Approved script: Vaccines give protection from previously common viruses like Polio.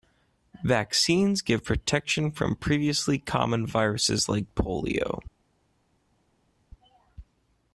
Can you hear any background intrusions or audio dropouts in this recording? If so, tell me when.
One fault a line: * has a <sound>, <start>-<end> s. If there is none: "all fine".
all fine